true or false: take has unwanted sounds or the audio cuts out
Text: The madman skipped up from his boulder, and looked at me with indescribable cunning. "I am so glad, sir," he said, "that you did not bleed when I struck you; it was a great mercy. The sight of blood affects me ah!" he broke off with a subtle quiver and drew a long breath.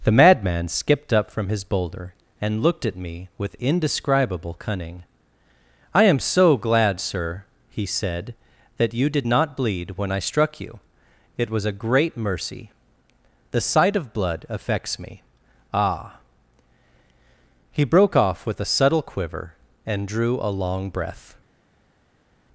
false